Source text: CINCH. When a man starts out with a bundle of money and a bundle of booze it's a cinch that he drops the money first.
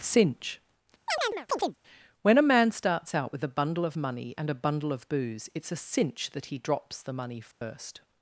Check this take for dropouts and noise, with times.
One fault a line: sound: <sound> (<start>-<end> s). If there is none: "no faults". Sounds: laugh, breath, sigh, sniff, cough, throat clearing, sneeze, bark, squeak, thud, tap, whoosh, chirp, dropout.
sound: chirp (1.1-1.8 s)
sound: dropout (7.5-7.6 s)